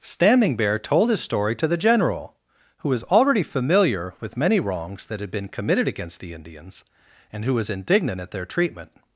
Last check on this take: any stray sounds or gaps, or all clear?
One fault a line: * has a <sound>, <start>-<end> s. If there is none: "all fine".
all fine